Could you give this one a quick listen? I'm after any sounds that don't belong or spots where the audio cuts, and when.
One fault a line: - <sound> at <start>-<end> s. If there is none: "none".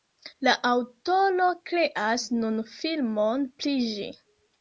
none